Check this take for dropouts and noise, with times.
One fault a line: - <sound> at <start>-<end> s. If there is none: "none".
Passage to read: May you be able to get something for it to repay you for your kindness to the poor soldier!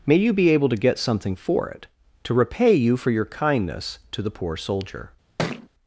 - thud at 5.4-5.7 s